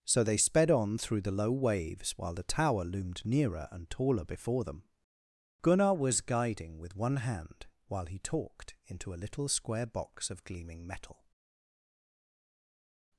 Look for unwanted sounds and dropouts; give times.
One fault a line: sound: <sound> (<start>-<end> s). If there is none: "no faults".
no faults